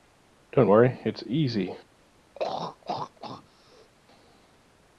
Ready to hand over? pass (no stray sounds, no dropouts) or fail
fail